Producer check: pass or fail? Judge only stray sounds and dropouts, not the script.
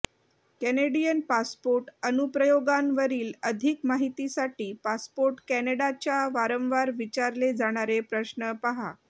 pass